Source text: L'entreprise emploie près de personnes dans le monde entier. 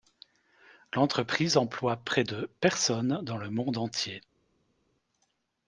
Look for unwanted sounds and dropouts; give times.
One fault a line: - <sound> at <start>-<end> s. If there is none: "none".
none